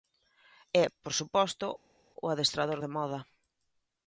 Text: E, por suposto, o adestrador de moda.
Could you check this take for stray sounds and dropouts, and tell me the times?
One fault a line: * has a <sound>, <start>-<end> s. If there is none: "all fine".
all fine